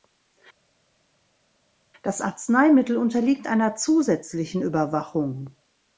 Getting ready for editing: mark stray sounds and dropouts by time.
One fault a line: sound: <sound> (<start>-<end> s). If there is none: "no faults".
no faults